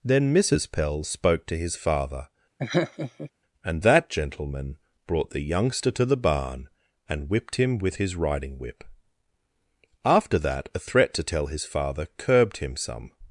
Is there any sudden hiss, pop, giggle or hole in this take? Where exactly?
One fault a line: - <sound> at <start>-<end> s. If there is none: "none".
- laugh at 2.6-3.3 s